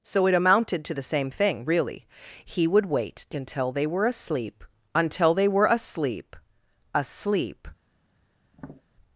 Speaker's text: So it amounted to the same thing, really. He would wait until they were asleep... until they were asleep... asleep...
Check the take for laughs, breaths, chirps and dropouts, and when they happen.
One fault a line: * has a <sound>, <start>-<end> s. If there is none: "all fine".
* has a tap, 8.5-8.8 s